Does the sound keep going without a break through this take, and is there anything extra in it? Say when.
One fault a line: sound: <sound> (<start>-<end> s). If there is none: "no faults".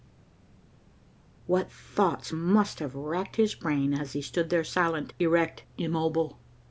no faults